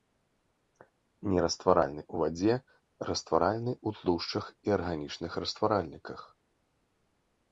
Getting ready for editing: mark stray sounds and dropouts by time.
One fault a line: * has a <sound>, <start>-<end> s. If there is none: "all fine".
all fine